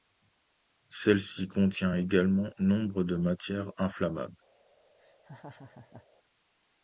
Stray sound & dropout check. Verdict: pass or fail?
fail